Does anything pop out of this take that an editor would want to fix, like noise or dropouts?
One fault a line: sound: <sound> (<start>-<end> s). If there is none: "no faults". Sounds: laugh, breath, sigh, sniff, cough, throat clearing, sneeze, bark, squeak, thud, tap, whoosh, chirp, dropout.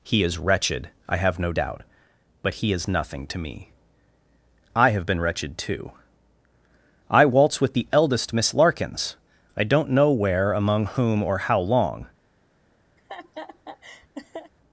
sound: laugh (13.0-14.5 s)